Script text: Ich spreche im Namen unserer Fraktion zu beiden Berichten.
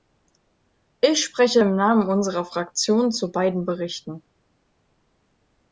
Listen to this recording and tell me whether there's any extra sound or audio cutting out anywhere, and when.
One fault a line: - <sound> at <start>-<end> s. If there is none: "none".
none